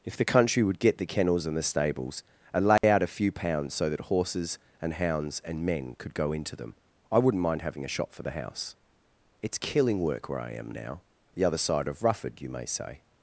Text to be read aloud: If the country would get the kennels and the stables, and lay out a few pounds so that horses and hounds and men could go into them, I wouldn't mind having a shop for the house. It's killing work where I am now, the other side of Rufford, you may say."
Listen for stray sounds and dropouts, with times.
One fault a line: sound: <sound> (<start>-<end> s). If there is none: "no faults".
sound: dropout (2.8-2.8 s)